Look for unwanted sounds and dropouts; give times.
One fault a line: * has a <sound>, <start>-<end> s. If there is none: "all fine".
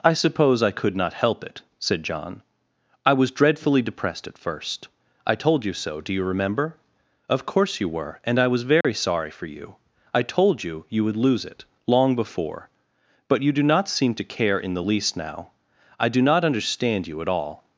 * has a dropout, 8.8-8.8 s